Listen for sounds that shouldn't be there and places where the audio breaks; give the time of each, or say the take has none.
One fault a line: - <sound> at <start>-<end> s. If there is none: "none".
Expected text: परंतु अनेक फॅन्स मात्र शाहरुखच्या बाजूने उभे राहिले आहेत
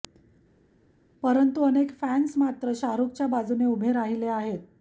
none